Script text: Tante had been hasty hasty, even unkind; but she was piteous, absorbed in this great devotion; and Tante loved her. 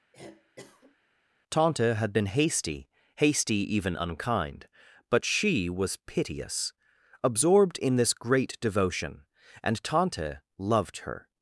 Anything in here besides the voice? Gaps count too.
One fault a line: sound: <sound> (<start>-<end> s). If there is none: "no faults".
sound: cough (0.1-1.0 s)